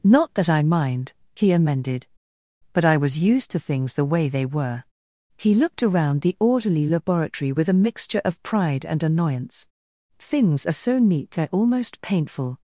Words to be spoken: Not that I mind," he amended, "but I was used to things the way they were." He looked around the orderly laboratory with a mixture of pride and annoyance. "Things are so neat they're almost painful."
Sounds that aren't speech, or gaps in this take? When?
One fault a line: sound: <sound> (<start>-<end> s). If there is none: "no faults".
no faults